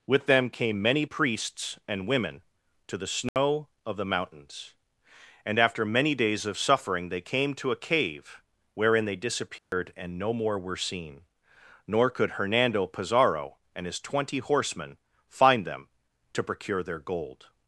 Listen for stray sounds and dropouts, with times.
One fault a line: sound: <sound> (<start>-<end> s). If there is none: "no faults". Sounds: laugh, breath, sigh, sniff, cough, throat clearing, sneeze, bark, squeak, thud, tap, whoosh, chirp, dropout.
sound: dropout (3.3-3.4 s)
sound: dropout (9.6-9.7 s)